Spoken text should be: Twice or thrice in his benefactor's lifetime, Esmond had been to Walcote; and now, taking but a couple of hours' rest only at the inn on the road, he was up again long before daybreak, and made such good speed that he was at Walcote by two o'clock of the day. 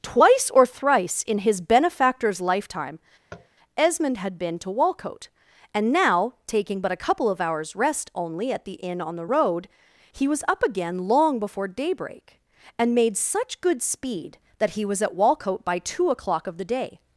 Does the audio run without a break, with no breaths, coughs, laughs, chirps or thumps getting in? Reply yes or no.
no